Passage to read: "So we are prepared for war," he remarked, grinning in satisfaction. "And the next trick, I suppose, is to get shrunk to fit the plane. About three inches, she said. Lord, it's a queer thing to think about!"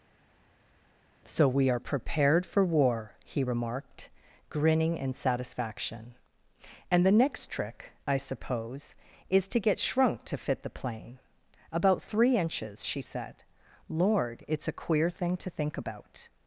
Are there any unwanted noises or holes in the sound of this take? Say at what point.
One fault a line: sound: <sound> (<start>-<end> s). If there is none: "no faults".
no faults